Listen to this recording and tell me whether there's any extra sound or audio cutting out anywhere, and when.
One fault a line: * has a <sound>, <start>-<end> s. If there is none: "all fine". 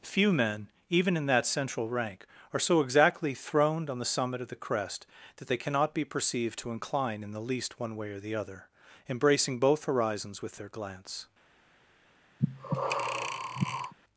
* has a breath, 12.4-13.9 s